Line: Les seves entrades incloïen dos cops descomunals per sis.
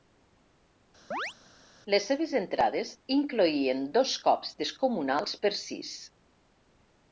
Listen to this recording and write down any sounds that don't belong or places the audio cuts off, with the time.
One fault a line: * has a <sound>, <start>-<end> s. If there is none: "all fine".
* has a chirp, 1.1-1.3 s